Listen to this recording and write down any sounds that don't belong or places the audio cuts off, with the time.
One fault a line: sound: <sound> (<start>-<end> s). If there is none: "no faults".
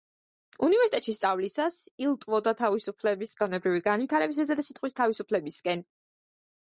no faults